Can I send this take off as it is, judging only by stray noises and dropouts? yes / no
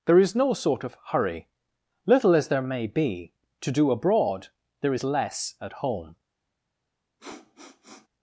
no